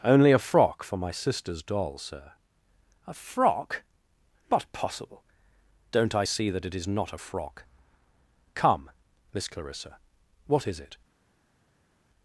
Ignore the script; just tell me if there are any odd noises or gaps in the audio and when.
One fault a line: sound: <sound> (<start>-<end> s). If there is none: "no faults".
no faults